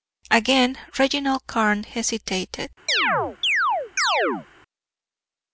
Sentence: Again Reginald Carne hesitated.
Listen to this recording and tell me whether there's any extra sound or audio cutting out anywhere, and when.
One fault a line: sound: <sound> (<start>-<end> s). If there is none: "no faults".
sound: chirp (2.9-4.5 s)